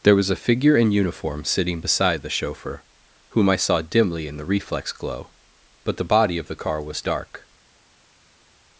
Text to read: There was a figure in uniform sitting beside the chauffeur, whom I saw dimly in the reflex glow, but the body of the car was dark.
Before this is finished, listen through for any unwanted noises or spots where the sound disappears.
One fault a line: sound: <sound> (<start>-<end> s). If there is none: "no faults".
no faults